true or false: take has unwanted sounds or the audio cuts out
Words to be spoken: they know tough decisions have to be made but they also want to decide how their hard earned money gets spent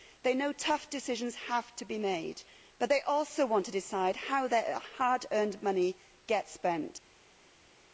false